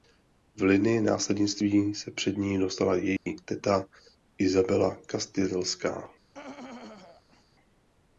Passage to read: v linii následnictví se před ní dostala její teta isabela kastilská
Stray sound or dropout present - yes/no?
yes